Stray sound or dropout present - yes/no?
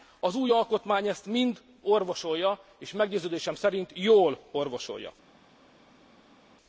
no